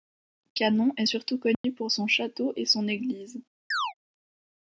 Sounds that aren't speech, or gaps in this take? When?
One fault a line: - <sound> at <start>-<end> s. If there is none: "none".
- dropout at 1.5-1.6 s
- chirp at 3.7-3.9 s